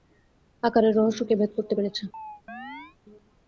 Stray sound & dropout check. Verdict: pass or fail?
fail